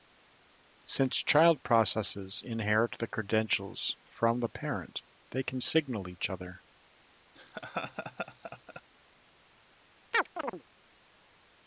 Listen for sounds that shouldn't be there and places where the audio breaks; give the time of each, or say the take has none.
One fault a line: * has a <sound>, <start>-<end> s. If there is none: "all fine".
* has a laugh, 7.3-8.8 s
* has a chirp, 10.1-10.6 s